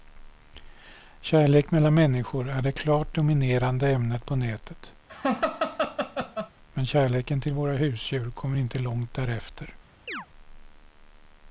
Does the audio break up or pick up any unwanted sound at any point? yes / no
yes